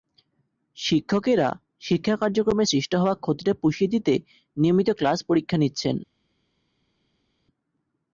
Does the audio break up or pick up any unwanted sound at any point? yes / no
no